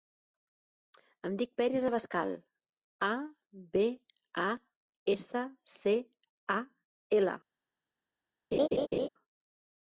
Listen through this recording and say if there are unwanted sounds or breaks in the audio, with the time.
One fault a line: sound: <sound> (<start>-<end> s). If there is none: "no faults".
sound: laugh (8.5-9.1 s)